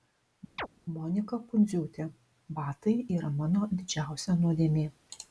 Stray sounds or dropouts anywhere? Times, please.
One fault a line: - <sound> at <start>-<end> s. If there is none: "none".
- chirp at 0.6-0.7 s